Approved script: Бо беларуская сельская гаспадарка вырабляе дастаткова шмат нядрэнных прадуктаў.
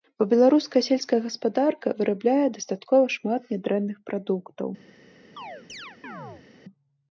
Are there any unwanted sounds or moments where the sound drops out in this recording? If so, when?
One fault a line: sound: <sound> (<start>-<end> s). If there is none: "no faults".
sound: chirp (5.4-6.5 s)